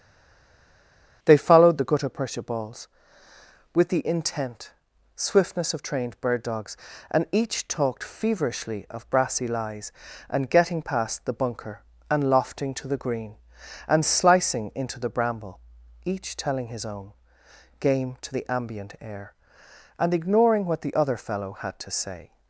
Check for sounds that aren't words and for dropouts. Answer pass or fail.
pass